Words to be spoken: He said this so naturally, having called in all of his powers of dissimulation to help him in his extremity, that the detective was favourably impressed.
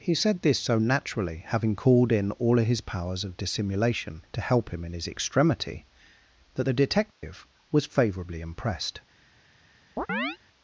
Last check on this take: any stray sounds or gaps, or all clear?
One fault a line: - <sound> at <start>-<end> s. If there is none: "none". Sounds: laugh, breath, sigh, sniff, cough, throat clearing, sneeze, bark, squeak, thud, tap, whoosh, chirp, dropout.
- dropout at 7.1-7.2 s
- chirp at 10.0-10.4 s